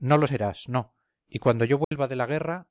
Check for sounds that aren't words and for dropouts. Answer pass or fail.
fail